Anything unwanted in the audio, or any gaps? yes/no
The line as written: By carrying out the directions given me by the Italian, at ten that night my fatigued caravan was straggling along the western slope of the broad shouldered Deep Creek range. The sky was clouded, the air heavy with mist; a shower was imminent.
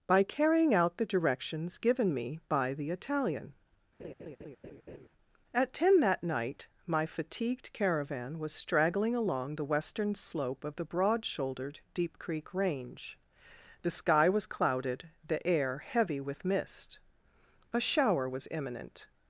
yes